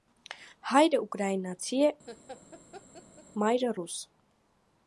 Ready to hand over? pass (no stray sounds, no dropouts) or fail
fail